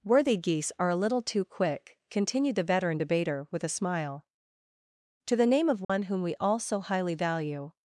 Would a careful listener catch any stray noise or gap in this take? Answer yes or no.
yes